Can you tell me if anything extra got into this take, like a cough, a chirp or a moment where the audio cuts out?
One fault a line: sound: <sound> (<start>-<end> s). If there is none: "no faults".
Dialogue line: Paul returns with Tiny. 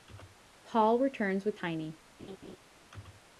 sound: laugh (2.2-2.6 s)